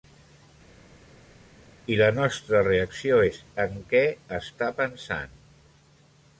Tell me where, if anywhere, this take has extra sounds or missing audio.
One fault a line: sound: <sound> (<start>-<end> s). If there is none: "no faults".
no faults